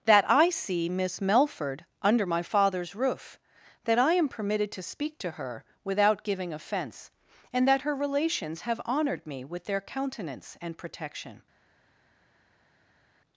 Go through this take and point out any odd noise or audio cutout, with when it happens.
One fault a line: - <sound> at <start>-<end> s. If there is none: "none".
none